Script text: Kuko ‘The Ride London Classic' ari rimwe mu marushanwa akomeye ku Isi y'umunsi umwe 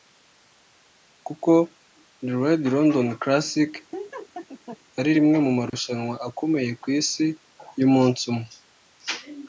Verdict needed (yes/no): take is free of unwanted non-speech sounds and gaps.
no